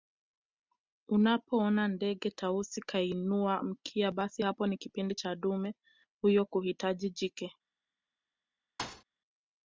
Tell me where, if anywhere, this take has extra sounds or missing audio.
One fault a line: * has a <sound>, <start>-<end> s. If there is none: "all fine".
* has a thud, 8.8-9.0 s